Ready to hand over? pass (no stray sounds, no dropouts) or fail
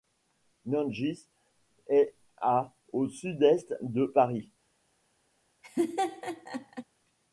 fail